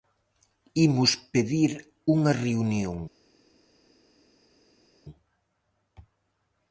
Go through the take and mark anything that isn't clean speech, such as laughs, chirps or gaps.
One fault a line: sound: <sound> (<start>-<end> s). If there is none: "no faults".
no faults